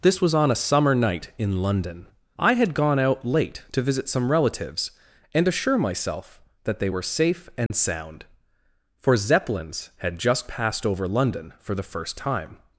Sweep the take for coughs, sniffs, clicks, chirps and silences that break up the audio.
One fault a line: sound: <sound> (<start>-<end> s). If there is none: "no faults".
sound: dropout (7.7-7.7 s)